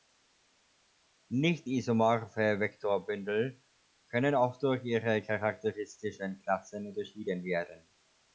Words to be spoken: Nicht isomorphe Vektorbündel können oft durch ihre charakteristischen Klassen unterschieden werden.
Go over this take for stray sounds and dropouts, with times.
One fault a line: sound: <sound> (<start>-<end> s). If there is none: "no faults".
no faults